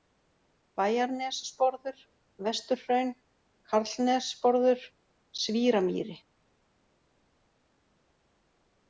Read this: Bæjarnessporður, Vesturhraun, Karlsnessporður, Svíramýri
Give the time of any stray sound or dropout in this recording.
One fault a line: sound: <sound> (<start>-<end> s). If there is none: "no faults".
no faults